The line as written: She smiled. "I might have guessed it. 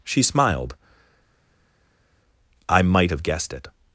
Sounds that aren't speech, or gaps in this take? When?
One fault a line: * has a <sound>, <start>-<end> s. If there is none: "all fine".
all fine